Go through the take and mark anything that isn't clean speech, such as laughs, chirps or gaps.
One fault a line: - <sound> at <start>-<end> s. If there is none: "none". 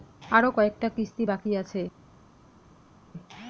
none